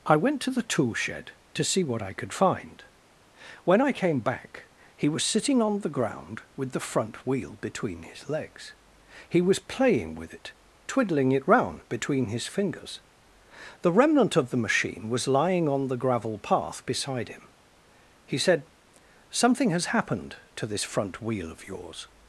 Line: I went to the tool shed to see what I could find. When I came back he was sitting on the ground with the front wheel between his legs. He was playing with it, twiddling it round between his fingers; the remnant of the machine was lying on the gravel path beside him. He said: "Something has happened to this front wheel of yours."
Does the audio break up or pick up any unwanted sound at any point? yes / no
no